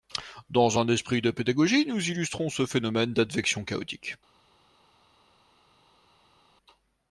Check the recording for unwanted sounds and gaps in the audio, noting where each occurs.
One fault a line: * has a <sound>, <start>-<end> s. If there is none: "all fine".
all fine